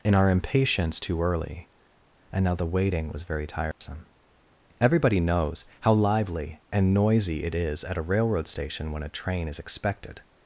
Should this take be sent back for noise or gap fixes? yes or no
yes